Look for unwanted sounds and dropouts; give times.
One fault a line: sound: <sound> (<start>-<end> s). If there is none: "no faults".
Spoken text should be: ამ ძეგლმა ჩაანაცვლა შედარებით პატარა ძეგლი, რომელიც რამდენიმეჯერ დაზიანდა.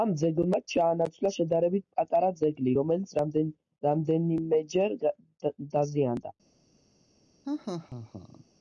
sound: laugh (7.4-8.4 s)